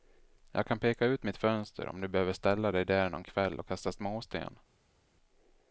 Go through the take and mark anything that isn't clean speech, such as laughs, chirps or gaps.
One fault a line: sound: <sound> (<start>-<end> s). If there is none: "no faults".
no faults